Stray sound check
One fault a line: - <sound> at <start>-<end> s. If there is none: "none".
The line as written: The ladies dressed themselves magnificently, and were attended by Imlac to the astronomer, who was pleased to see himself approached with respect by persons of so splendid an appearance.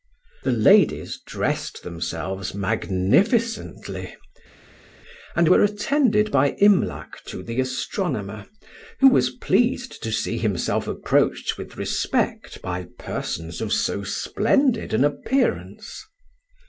none